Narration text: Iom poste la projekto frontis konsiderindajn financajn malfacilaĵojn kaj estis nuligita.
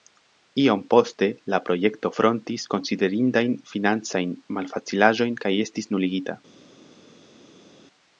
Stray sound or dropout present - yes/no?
no